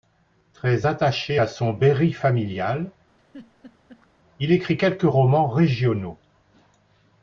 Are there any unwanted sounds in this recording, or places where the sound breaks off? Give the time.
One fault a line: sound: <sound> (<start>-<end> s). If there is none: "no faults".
sound: laugh (3.2-4.1 s)